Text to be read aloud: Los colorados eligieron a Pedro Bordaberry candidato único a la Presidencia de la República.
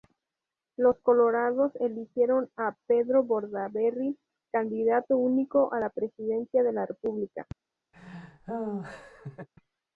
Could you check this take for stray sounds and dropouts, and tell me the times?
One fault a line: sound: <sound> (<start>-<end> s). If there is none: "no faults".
sound: laugh (7.9-9.5 s)